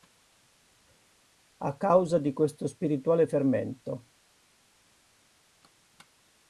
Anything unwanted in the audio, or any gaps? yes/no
no